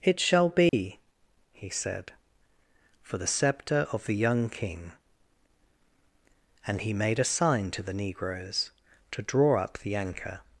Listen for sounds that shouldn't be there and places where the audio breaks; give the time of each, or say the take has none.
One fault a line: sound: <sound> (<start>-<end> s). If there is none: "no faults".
sound: dropout (0.7-0.7 s)